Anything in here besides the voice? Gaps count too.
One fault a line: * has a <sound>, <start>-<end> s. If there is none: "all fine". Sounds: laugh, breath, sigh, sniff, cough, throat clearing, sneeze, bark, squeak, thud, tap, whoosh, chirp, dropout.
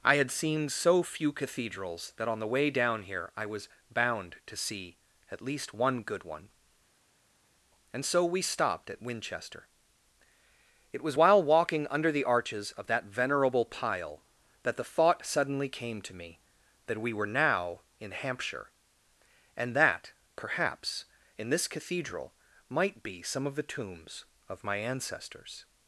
all fine